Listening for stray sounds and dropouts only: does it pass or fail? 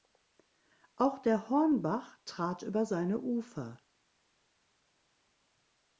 pass